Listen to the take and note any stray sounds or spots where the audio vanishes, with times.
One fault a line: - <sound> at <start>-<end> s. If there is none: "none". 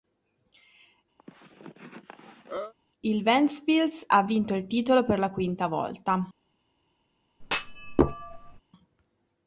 - cough at 1.2-2.7 s
- thud at 7.4-8.6 s